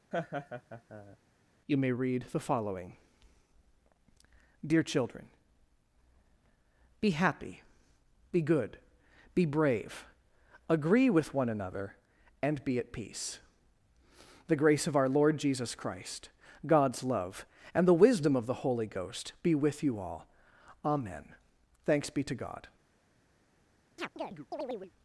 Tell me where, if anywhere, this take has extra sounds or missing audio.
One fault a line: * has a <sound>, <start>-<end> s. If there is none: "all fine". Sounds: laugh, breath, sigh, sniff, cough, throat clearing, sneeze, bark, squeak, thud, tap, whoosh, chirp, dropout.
* has a laugh, 0.1-1.2 s
* has a chirp, 24.0-24.9 s